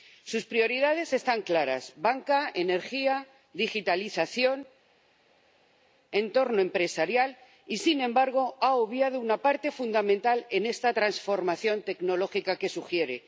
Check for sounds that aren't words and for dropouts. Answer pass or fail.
pass